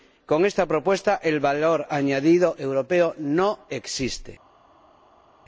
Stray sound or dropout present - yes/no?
no